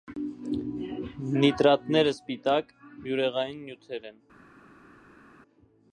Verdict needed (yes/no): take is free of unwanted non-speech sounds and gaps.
yes